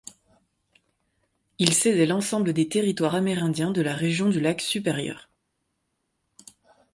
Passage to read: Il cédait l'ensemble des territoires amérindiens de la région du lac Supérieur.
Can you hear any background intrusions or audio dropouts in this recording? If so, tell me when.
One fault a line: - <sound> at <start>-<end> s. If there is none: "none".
none